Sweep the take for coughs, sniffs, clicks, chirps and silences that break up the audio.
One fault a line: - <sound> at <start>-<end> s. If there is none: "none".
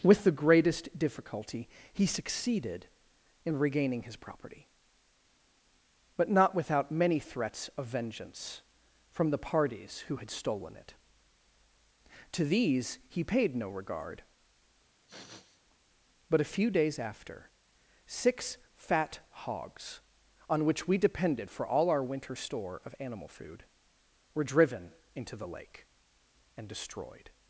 - sniff at 14.9-15.6 s